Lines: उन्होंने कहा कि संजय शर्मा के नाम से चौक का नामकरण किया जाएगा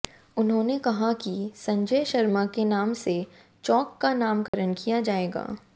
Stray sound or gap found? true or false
true